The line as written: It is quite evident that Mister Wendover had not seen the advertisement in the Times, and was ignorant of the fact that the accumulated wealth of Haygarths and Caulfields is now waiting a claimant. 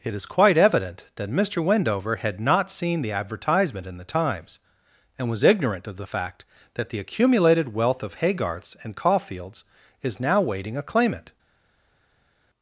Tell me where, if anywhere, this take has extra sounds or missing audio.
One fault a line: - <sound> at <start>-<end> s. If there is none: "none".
none